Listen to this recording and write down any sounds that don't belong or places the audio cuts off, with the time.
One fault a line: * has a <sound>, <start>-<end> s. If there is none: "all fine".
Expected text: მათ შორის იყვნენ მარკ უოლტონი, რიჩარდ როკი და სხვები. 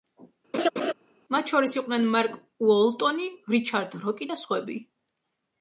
* has a laugh, 0.5-0.9 s